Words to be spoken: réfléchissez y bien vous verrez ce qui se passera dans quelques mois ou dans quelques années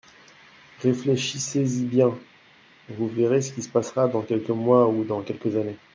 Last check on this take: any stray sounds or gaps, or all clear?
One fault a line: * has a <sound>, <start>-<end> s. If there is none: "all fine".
all fine